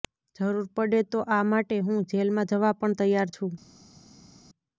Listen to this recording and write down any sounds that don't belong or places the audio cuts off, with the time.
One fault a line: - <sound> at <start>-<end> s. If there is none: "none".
none